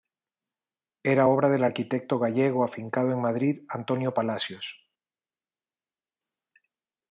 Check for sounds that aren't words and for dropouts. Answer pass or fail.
pass